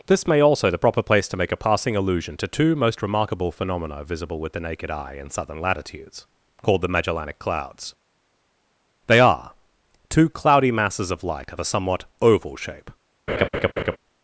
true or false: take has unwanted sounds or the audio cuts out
true